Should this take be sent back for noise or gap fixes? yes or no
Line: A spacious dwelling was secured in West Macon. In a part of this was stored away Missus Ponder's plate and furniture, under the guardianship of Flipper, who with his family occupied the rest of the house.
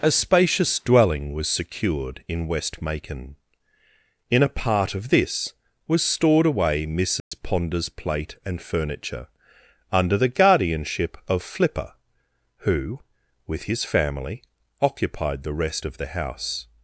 yes